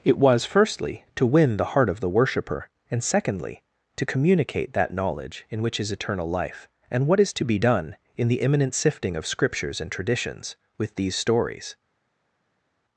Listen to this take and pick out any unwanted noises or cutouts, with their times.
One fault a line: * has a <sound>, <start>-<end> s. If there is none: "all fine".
all fine